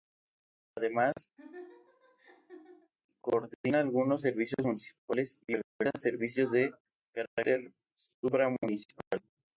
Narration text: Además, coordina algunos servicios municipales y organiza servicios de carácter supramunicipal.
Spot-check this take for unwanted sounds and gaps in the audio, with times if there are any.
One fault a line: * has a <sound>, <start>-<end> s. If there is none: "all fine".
* has a laugh, 1.4-2.9 s